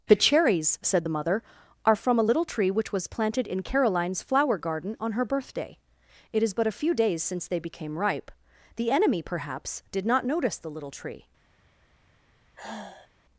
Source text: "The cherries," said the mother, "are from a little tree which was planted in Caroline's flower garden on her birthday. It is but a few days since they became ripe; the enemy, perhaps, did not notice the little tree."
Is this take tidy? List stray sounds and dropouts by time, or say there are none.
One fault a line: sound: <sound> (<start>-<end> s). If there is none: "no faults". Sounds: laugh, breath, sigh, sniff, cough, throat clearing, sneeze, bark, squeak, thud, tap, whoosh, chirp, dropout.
sound: sigh (12.6-13.1 s)